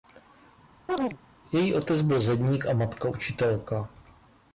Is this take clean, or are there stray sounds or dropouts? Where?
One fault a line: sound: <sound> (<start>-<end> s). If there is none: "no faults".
sound: chirp (0.9-1.2 s)